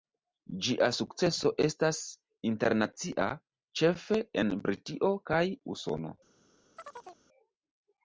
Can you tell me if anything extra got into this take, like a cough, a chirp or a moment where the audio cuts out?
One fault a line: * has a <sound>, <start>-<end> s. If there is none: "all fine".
* has a chirp, 6.8-7.2 s